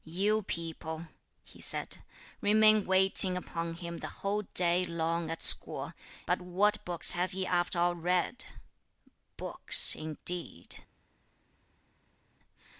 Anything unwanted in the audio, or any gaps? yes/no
no